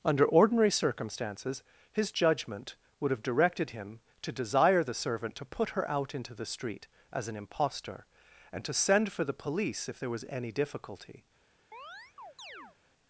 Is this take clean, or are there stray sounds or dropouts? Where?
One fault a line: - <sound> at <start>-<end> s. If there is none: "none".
- chirp at 11.7-12.8 s